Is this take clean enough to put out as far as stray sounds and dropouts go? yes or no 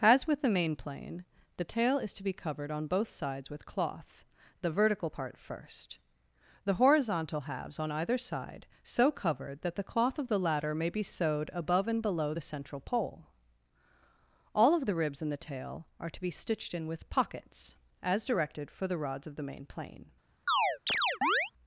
no